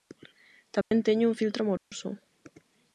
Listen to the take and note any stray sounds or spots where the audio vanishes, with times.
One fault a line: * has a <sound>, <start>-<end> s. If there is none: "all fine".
* has a dropout, 0.8-0.9 s
* has a dropout, 1.8-1.9 s